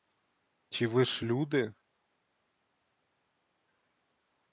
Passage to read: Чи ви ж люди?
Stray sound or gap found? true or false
false